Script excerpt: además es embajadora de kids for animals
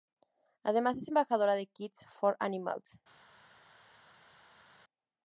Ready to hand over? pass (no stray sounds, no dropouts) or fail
pass